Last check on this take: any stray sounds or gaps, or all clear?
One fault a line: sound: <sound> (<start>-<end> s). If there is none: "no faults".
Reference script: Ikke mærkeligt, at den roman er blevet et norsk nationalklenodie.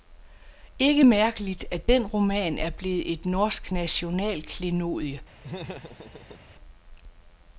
sound: laugh (5.4-6.5 s)